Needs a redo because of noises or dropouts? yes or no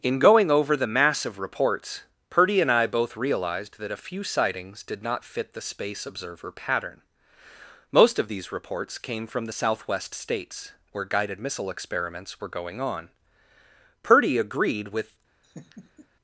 yes